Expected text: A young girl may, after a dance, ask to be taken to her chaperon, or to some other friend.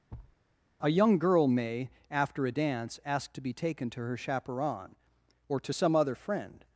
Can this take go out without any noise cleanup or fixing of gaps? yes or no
no